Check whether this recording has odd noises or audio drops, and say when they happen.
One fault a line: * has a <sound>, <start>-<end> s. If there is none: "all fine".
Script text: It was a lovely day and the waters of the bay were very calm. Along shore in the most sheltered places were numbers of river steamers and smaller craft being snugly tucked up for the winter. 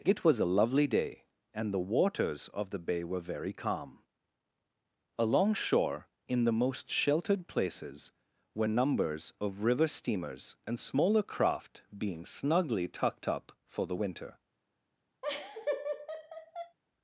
* has a laugh, 15.2-16.8 s